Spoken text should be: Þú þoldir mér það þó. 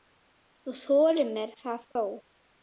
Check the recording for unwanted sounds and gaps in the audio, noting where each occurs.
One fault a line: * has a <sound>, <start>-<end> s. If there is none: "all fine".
* has a dropout, 1.9-2.0 s